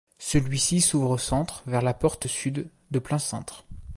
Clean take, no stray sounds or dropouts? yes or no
yes